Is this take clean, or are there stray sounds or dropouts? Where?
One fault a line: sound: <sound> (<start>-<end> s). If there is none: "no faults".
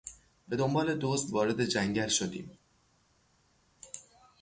no faults